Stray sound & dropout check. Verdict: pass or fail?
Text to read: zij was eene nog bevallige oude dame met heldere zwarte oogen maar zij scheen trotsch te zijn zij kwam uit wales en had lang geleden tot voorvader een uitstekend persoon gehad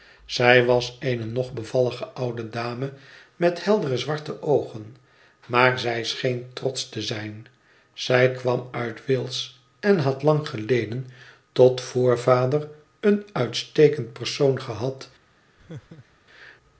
fail